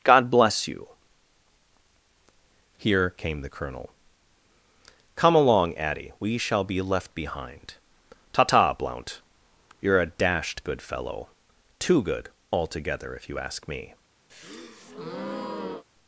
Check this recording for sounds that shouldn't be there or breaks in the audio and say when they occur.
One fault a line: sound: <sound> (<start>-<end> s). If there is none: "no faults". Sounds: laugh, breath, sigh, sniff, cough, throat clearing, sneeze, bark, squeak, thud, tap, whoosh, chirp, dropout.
sound: breath (14.3-15.8 s)